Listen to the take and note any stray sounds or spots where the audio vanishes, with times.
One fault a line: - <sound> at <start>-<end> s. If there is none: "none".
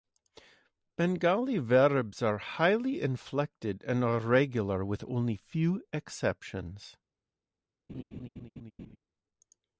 - laugh at 7.9-9.0 s